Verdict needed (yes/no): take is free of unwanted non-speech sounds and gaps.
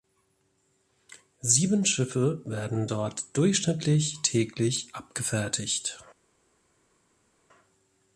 yes